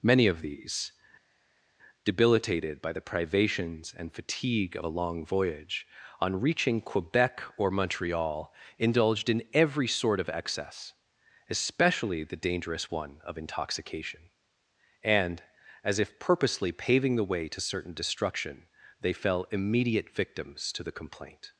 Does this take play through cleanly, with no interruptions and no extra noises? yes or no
yes